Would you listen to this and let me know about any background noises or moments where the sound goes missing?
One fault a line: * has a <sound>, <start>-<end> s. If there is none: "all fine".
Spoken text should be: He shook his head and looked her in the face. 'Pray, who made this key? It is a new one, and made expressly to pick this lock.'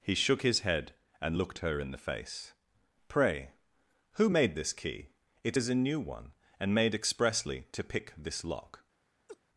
* has a laugh, 9.3-9.4 s